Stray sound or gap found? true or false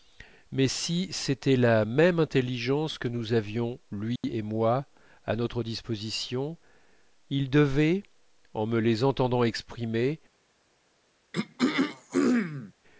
true